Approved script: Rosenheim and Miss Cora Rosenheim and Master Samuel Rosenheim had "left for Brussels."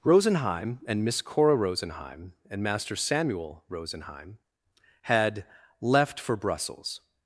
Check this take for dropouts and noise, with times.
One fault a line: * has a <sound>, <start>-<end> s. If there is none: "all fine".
all fine